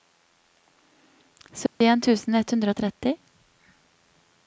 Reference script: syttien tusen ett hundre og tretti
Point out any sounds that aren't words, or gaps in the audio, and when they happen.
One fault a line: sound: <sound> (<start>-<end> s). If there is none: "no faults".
sound: dropout (1.7-1.8 s)